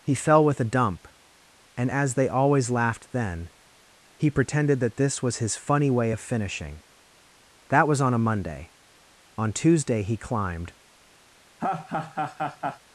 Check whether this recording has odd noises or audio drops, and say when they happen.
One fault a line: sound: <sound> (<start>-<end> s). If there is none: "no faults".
sound: laugh (11.6-12.8 s)